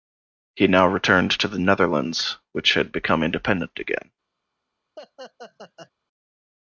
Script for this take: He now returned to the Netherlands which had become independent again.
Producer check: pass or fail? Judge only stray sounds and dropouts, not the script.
fail